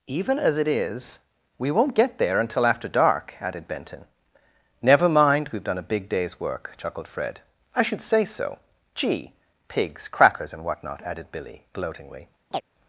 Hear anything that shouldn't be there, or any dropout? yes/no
yes